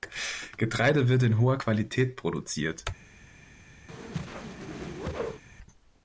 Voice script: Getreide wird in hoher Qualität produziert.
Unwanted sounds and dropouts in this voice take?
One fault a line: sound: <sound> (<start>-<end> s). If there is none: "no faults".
sound: whoosh (3.9-5.4 s)